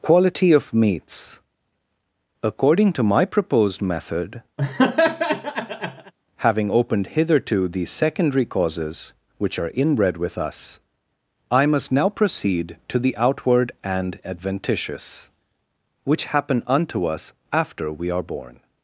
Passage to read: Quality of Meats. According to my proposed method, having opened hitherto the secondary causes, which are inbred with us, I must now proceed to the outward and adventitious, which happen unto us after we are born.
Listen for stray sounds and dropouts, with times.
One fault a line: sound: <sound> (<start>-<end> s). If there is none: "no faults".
sound: laugh (4.6-6.1 s)